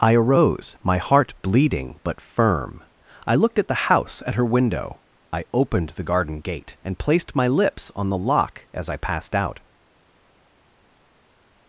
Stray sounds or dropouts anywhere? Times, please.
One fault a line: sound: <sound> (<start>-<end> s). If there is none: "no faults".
no faults